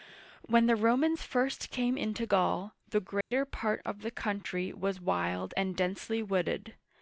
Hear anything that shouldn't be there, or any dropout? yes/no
yes